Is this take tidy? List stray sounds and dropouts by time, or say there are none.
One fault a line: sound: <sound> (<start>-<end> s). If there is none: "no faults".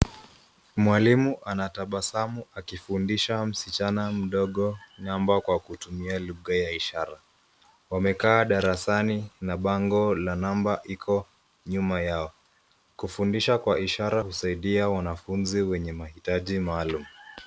no faults